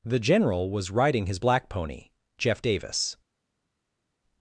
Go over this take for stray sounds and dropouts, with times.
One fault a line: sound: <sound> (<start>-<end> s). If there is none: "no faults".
no faults